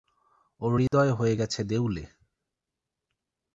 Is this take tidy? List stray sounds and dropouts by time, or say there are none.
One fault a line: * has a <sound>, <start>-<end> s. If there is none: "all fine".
* has a dropout, 0.9-0.9 s